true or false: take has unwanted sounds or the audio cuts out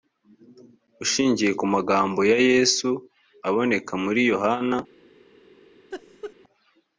true